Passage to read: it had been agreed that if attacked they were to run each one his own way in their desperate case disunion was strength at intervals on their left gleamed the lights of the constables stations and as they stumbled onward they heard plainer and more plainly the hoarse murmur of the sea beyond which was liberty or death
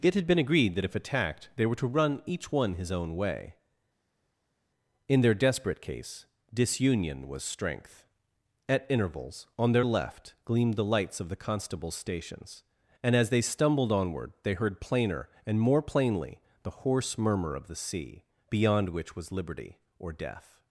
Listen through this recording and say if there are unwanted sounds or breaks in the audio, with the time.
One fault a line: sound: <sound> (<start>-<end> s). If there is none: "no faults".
no faults